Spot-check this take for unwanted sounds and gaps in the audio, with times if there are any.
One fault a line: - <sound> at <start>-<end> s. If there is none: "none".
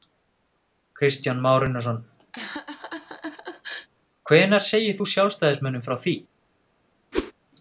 - laugh at 2.3-3.9 s
- whoosh at 7.1-7.3 s